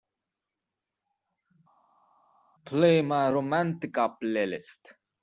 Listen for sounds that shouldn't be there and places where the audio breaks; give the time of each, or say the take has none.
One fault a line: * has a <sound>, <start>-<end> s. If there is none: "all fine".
all fine